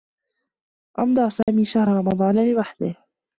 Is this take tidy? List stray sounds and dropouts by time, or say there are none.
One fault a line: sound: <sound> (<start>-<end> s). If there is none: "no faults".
sound: dropout (1.4-1.5 s)